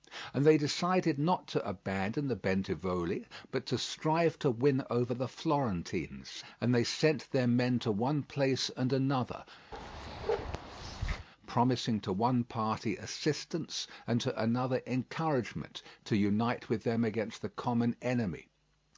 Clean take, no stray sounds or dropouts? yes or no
no